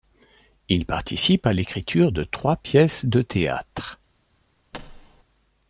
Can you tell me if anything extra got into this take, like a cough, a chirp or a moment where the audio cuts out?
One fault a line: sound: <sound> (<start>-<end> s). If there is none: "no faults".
sound: thud (4.7-5.2 s)